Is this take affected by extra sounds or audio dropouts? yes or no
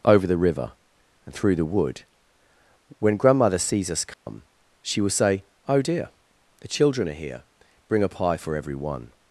yes